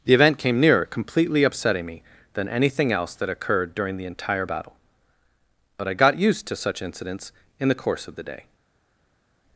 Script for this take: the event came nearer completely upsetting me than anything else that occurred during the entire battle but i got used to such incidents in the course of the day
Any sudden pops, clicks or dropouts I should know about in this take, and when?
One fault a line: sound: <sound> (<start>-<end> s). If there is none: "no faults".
no faults